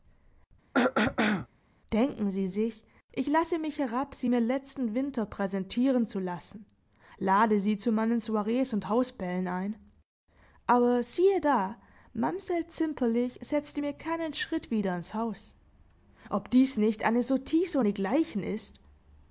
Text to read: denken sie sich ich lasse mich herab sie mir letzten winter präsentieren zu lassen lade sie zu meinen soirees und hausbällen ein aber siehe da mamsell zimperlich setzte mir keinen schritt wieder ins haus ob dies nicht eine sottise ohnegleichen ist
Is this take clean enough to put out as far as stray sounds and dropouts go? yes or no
no